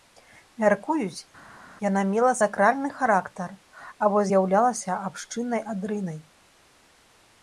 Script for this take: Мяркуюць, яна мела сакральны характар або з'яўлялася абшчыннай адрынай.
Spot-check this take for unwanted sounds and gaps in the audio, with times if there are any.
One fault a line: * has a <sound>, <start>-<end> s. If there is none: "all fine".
all fine